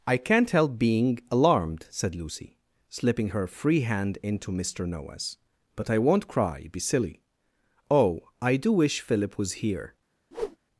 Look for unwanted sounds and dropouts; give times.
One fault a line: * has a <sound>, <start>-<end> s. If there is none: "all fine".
* has a whoosh, 10.3-10.6 s